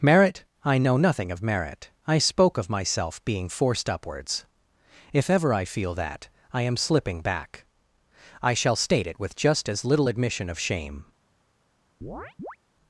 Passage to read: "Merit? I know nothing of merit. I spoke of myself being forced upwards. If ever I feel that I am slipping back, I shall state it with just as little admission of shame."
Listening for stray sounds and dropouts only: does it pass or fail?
fail